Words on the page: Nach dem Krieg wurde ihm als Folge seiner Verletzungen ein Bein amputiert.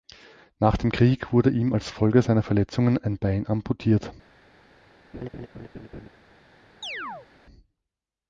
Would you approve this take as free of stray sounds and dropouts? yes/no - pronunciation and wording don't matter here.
no